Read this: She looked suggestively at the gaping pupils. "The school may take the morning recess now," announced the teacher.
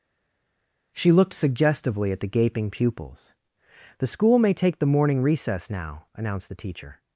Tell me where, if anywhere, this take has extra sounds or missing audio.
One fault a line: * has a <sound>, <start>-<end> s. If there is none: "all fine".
all fine